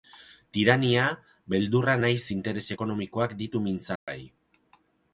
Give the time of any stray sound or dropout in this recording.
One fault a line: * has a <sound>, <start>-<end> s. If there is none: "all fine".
* has a dropout, 4.0-4.1 s